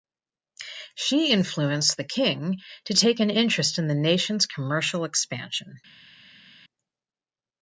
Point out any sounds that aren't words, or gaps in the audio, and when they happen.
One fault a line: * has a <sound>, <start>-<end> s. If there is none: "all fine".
all fine